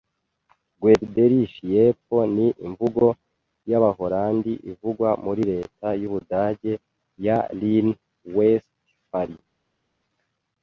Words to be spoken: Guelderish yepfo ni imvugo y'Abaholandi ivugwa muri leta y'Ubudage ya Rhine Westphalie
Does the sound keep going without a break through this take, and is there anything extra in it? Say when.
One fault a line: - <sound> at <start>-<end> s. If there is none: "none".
none